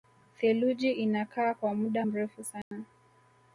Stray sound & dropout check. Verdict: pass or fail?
fail